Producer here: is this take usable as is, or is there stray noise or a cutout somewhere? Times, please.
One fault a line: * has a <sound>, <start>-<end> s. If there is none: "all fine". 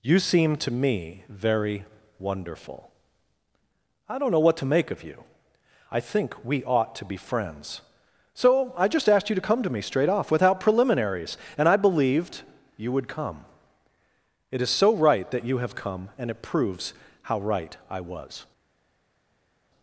all fine